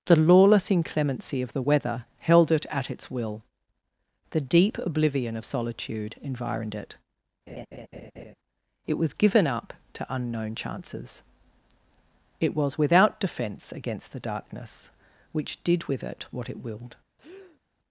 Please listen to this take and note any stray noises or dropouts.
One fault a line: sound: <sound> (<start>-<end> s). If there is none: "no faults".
sound: laugh (7.5-8.3 s)
sound: breath (17.2-17.6 s)